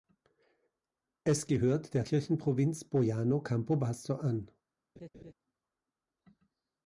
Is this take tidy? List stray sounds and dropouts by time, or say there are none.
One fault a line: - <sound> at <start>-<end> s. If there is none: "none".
- laugh at 5.0-5.3 s